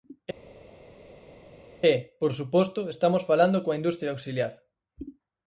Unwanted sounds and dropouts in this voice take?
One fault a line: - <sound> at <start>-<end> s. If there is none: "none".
none